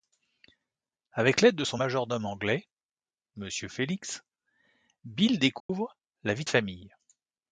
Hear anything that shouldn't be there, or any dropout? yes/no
yes